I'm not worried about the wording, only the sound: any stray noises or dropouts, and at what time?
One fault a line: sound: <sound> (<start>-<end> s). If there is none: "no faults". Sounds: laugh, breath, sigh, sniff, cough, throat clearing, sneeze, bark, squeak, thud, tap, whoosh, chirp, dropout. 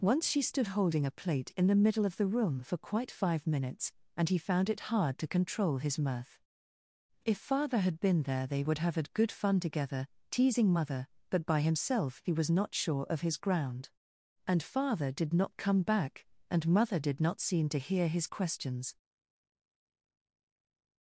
no faults